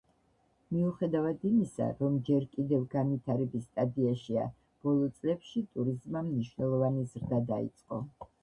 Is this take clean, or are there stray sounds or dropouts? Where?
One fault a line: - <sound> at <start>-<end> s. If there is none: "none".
none